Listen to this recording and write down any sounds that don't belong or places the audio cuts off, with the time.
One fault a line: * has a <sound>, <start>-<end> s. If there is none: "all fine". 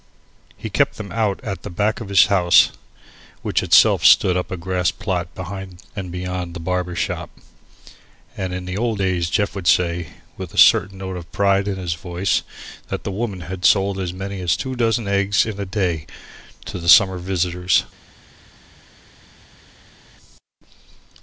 all fine